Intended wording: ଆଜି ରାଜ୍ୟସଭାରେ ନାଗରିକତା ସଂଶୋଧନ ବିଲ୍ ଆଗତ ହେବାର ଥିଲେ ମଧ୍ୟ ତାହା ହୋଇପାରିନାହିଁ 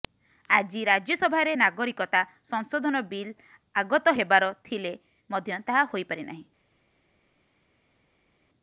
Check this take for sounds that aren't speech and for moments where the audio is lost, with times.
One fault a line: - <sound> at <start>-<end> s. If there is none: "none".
none